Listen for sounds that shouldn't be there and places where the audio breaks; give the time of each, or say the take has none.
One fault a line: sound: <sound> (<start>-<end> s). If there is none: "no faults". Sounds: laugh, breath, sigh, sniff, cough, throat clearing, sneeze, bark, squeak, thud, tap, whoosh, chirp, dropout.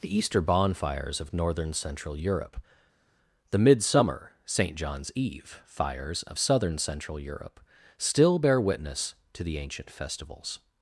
no faults